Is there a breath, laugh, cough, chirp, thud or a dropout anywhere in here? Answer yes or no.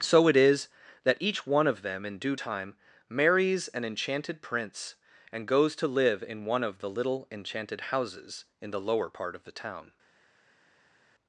no